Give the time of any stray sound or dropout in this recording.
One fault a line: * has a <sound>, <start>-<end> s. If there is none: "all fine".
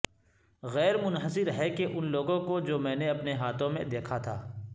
all fine